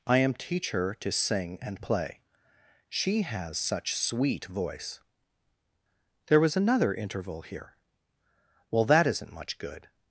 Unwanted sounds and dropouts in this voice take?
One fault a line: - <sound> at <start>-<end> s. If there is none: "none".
none